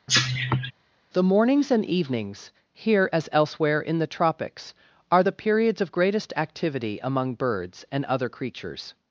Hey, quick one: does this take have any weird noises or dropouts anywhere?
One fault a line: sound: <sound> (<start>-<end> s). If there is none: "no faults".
sound: cough (0.1-0.7 s)